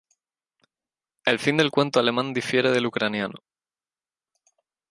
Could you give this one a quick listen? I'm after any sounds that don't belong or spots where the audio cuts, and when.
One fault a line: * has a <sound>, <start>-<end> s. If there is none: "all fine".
all fine